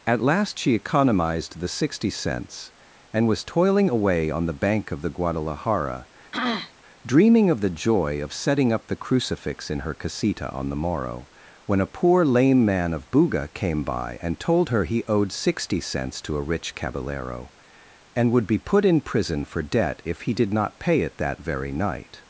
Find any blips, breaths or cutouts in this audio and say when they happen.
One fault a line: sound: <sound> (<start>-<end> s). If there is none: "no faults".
sound: throat clearing (6.3-6.7 s)